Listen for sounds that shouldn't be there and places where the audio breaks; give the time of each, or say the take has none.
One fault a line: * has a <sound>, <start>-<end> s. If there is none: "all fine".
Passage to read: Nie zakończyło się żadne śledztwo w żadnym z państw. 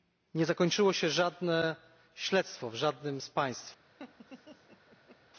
* has a laugh, 4.0-5.2 s